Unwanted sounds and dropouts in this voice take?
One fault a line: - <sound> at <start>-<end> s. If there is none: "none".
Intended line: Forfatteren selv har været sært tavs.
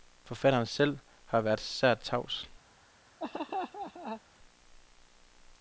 - laugh at 3.2-4.2 s